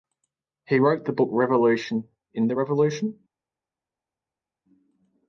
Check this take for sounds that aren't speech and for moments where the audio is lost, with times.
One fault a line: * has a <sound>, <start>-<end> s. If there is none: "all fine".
all fine